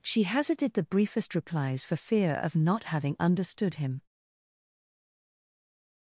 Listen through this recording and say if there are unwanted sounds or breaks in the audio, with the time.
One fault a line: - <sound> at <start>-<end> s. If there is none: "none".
none